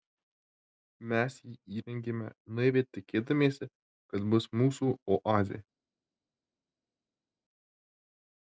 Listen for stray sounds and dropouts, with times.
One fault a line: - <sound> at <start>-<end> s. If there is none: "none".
none